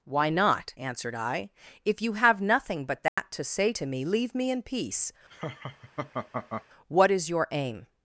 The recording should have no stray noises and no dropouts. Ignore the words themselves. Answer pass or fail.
fail